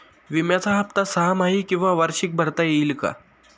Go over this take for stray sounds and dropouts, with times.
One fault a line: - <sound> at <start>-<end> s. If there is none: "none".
none